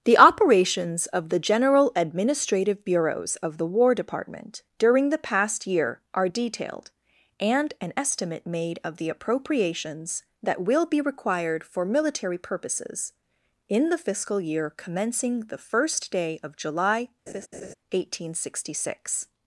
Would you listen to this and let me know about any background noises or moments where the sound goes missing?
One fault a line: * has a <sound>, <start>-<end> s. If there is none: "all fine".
* has a laugh, 17.3-17.7 s